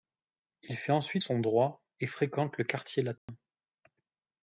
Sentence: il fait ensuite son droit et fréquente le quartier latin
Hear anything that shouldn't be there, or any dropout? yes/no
yes